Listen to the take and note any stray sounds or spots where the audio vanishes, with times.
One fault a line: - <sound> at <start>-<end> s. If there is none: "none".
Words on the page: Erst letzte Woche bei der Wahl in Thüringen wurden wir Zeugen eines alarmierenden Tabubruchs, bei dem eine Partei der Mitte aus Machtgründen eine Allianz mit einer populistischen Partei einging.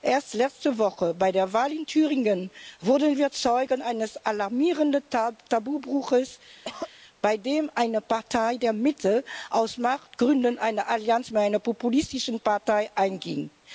- cough at 6.6-6.9 s